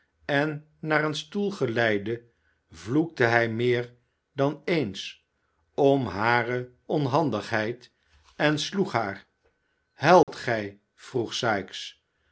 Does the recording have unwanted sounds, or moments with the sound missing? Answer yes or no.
yes